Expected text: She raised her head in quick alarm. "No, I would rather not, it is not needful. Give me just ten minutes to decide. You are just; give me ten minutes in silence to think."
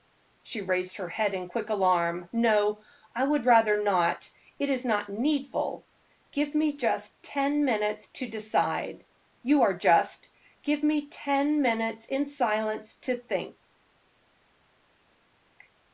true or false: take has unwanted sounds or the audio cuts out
false